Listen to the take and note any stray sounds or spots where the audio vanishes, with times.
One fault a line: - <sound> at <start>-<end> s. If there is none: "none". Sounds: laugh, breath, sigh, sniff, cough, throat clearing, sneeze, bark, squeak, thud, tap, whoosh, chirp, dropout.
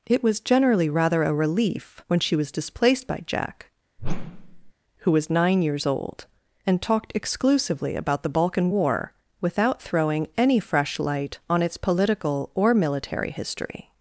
- whoosh at 4.0-4.7 s